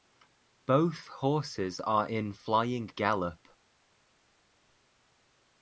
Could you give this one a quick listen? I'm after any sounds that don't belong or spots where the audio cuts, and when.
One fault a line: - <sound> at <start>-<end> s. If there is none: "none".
none